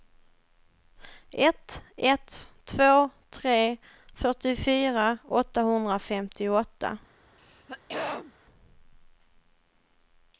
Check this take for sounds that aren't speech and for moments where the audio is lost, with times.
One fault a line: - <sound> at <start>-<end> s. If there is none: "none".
- throat clearing at 7.4-8.3 s